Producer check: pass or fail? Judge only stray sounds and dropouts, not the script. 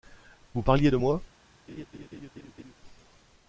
fail